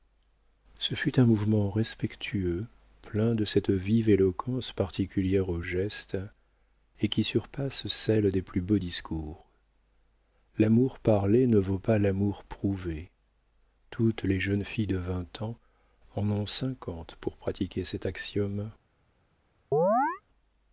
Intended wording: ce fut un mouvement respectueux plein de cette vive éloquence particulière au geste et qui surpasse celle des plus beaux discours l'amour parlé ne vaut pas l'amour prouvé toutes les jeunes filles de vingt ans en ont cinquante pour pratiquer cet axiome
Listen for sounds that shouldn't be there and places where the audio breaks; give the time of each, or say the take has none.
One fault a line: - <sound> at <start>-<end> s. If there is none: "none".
- chirp at 19.7-20.2 s